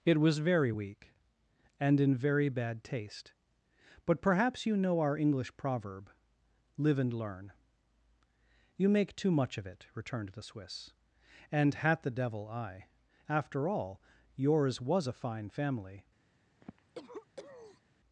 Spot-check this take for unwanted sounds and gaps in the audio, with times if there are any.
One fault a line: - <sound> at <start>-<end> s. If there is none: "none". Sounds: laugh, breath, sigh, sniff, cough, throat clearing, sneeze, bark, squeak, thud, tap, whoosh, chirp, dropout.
- cough at 16.6-17.8 s